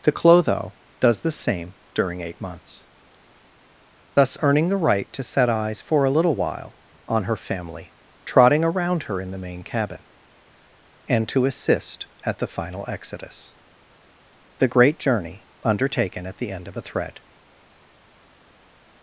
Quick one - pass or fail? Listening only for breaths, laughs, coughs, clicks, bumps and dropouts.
pass